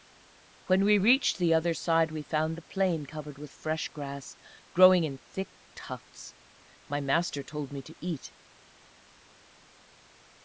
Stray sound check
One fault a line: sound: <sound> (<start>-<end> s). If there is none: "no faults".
no faults